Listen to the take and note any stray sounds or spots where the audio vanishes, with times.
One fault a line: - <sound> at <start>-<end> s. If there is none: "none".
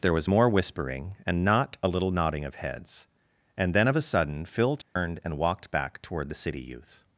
- dropout at 4.8-5.0 s